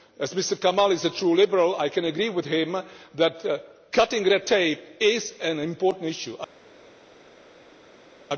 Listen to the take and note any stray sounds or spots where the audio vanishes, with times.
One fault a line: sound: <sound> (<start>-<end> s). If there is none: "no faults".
no faults